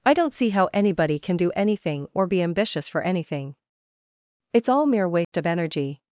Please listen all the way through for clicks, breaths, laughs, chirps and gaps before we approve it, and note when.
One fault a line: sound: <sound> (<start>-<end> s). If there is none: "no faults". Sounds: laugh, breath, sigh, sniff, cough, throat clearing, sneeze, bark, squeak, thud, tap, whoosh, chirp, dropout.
sound: dropout (5.2-5.3 s)